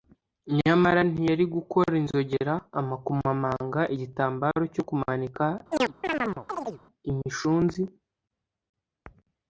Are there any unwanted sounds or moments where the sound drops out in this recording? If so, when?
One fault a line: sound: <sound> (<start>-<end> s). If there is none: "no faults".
sound: chirp (5.7-6.8 s)